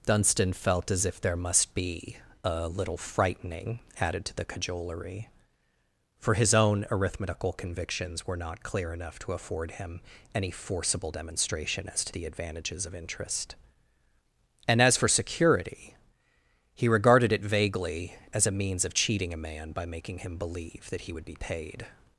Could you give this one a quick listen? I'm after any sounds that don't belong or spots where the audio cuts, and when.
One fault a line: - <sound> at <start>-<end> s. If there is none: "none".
none